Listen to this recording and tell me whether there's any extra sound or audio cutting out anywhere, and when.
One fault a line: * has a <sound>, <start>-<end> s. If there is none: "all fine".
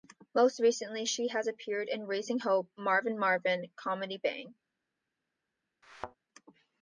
* has a thud, 5.8-6.2 s